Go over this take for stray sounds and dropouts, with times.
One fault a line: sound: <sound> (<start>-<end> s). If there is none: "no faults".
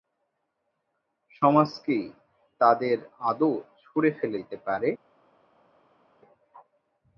no faults